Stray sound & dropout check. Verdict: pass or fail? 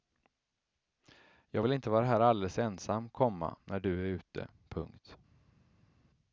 pass